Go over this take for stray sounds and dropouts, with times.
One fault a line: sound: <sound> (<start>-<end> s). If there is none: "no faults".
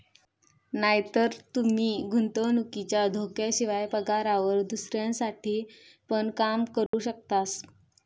sound: dropout (6.9-6.9 s)